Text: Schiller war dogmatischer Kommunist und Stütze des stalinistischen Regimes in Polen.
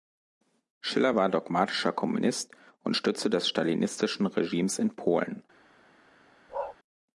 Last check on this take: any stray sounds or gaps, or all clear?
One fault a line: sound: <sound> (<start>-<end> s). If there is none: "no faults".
sound: bark (6.5-6.8 s)